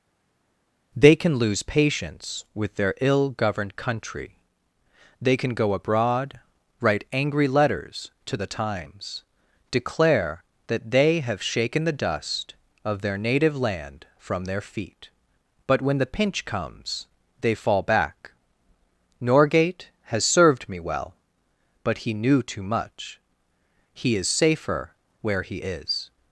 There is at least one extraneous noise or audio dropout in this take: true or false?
false